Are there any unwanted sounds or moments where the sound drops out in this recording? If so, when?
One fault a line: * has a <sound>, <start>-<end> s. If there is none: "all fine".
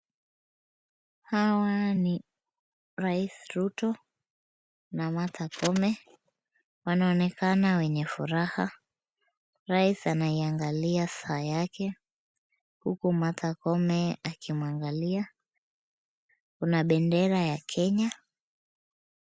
all fine